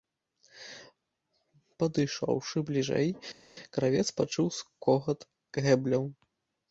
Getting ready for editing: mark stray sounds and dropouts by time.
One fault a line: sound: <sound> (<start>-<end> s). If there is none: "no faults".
no faults